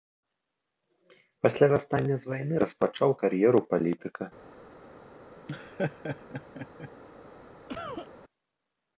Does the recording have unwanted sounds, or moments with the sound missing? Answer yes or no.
yes